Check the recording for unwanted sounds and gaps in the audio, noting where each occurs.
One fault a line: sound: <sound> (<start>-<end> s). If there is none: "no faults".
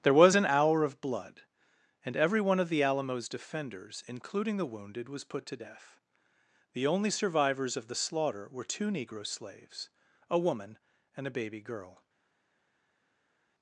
no faults